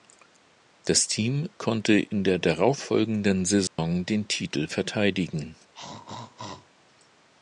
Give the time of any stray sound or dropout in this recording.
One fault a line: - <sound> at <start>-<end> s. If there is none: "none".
- dropout at 3.7-3.8 s
- throat clearing at 5.7-6.7 s